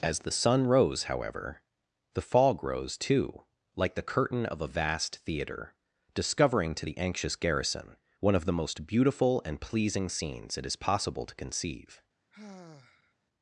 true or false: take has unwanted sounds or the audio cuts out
true